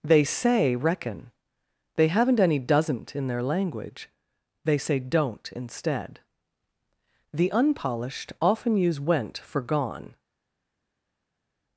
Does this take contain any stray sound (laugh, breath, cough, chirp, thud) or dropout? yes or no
no